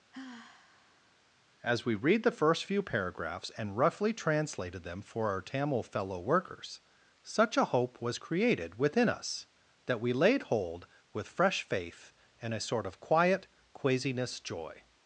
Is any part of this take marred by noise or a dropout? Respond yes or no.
yes